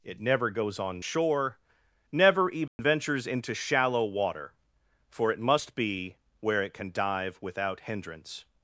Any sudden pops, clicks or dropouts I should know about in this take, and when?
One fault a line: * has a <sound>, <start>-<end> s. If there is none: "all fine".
* has a dropout, 2.7-2.8 s